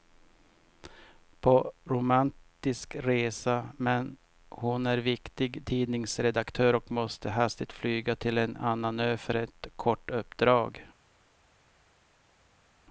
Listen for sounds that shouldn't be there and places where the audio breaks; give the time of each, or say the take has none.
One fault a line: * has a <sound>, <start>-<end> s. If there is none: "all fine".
all fine